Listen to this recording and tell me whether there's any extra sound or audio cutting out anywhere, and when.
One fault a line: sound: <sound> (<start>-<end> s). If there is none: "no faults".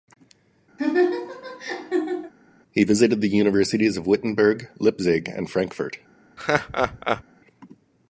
sound: laugh (0.8-2.3 s)
sound: laugh (6.4-7.2 s)